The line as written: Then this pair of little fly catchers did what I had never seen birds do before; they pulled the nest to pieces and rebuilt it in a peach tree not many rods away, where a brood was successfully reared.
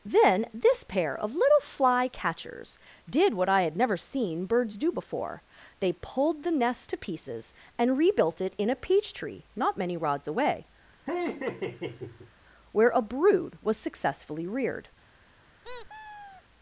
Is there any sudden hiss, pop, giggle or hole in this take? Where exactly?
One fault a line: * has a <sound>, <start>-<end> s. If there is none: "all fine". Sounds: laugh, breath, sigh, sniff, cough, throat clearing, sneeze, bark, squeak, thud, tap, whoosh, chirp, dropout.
* has a laugh, 11.1-12.3 s
* has a squeak, 15.6-16.4 s